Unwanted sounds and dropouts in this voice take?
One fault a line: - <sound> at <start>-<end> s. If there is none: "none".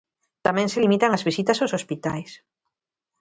none